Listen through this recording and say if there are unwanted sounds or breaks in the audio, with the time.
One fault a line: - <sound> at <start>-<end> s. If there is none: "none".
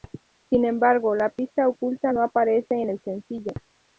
none